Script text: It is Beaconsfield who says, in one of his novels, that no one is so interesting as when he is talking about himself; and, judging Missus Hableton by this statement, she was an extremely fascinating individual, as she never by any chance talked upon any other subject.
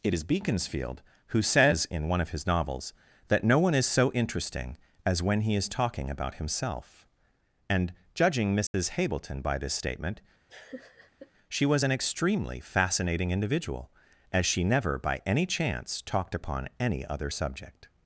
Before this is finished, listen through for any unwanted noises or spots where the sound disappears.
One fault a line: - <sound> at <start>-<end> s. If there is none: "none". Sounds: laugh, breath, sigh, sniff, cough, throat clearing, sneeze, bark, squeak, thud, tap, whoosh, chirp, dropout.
- dropout at 8.7-8.7 s
- laugh at 10.5-11.3 s